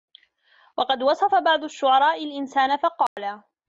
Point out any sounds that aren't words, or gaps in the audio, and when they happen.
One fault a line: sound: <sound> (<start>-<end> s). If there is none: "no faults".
sound: dropout (3.1-3.2 s)